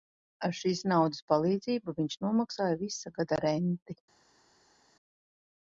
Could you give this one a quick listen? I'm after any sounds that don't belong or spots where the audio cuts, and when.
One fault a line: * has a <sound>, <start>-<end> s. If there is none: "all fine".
all fine